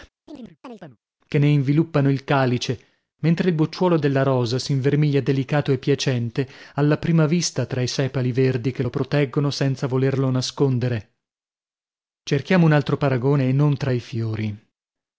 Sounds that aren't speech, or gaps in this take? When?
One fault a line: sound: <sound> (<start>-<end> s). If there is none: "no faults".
sound: chirp (0.3-1.0 s)